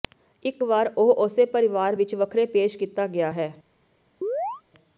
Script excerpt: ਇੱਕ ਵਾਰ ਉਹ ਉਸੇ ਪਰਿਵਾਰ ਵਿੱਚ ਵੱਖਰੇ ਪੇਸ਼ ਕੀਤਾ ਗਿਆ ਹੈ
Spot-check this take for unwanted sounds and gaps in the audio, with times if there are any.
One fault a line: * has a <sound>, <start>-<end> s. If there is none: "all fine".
* has a chirp, 4.2-4.6 s